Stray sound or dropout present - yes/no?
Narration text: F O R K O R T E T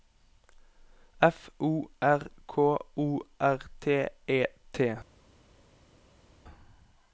no